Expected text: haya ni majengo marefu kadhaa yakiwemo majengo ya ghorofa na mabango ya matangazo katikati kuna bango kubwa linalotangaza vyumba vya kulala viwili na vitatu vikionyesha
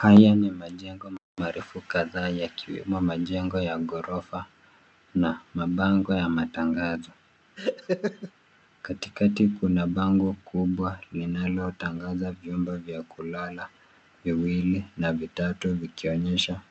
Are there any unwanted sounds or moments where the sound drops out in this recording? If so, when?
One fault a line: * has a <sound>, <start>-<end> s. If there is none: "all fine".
* has a laugh, 7.6-8.3 s